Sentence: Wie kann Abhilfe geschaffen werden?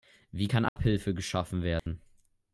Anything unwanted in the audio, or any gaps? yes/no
yes